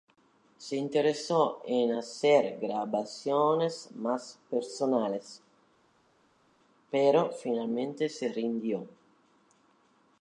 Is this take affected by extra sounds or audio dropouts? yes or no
no